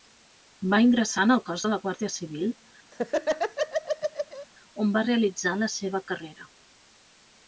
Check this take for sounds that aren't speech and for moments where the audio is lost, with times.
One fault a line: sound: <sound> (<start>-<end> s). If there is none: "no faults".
sound: laugh (2.9-4.5 s)